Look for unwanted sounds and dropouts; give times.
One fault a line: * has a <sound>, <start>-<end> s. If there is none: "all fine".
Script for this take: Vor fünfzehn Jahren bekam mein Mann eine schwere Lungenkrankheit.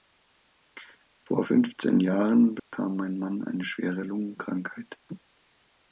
* has a dropout, 2.6-2.7 s